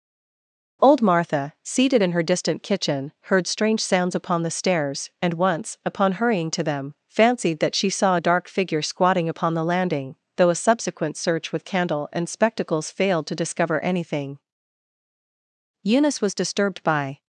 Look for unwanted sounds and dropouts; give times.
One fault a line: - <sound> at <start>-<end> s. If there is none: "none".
none